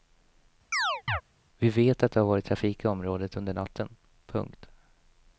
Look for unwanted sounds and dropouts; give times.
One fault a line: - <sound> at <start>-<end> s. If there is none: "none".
- chirp at 0.7-1.2 s